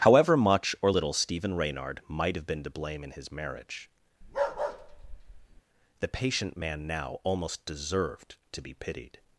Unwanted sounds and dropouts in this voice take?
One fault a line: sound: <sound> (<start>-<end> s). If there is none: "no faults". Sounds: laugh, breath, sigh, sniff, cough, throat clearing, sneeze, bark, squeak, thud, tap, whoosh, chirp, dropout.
sound: bark (4.2-5.6 s)